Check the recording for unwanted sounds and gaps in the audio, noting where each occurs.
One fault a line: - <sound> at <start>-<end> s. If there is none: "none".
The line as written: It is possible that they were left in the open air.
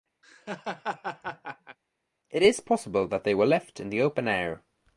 - laugh at 0.2-1.8 s